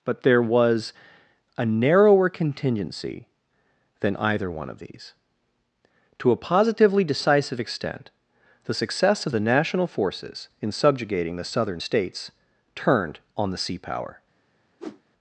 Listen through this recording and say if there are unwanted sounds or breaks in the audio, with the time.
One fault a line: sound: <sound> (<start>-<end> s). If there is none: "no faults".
sound: whoosh (14.8-15.0 s)